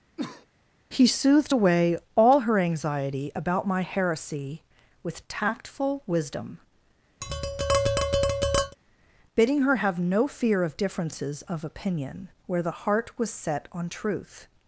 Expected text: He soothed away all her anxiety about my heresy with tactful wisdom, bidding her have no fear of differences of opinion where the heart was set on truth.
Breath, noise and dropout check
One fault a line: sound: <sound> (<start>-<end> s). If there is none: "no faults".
sound: cough (0.2-0.5 s)
sound: tap (7.2-8.8 s)